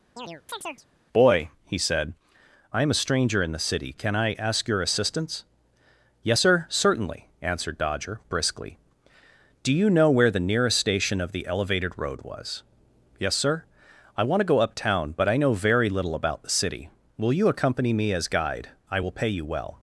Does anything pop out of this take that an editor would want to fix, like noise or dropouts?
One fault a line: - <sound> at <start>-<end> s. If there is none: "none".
- chirp at 0.2-0.9 s